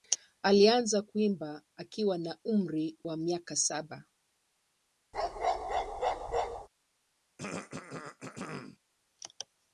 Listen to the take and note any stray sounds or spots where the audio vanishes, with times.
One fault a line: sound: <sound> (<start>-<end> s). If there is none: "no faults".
sound: bark (5.1-6.7 s)
sound: throat clearing (7.4-8.8 s)